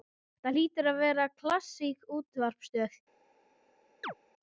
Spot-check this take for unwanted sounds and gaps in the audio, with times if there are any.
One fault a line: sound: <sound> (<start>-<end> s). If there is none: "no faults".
sound: chirp (4.0-4.1 s)